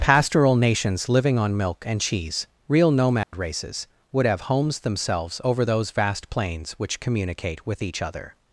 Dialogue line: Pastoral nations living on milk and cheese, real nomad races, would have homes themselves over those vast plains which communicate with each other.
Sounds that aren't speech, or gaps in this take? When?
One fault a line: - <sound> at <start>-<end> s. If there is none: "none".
- dropout at 3.2-3.3 s